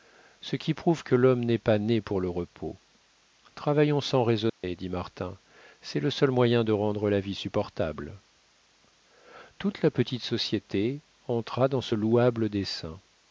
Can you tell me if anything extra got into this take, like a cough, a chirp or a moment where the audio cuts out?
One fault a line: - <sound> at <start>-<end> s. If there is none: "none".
- dropout at 4.5-4.6 s